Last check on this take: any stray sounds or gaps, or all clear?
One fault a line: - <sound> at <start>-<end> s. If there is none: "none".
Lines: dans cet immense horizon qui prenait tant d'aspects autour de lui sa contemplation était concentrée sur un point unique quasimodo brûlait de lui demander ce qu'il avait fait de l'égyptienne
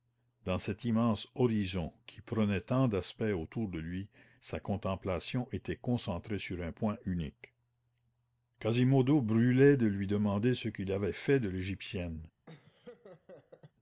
- laugh at 12.5-13.7 s